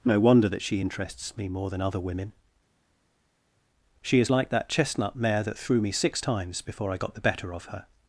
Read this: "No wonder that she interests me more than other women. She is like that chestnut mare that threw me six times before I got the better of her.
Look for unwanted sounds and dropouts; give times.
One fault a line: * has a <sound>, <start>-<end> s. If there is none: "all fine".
all fine